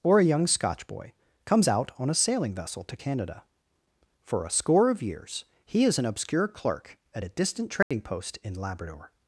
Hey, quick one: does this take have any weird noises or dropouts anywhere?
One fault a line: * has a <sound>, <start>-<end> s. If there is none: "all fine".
* has a dropout, 7.8-7.9 s